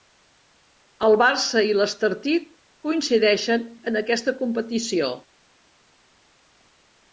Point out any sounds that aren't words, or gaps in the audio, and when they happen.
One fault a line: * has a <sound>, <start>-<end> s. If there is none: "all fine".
all fine